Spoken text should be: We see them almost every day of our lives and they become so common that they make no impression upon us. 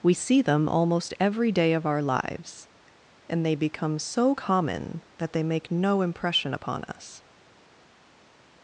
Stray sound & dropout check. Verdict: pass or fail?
pass